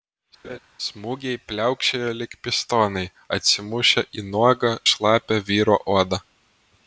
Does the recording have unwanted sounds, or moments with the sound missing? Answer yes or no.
yes